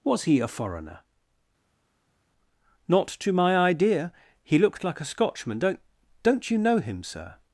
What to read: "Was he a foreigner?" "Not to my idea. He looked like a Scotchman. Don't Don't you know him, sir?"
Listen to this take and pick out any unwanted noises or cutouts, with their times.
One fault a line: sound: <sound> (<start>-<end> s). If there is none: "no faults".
no faults